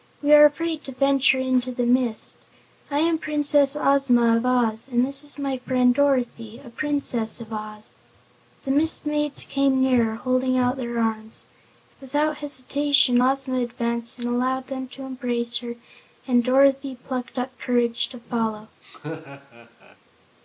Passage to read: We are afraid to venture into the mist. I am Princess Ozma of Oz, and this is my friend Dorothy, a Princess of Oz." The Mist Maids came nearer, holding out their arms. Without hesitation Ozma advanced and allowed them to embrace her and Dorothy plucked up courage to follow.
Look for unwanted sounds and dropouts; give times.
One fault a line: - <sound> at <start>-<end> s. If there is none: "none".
- laugh at 18.8-20.0 s